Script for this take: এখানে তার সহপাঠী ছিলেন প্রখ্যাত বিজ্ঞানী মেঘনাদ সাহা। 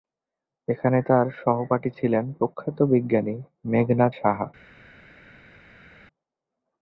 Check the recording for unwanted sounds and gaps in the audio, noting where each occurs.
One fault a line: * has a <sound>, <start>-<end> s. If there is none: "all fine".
all fine